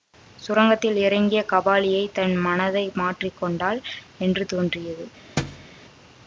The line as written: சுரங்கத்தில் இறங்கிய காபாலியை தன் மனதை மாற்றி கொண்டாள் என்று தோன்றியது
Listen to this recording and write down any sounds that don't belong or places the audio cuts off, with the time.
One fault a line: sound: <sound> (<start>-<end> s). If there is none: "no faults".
sound: thud (5.4-5.7 s)